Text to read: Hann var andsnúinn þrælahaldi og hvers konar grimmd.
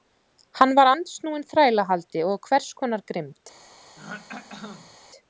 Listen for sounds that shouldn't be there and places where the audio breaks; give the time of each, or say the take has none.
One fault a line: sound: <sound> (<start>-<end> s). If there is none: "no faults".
sound: throat clearing (4.0-5.0 s)